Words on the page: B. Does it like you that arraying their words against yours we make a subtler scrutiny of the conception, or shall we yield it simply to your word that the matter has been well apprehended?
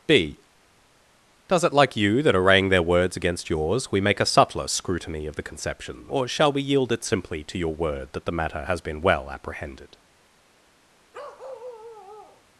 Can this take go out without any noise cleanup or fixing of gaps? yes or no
no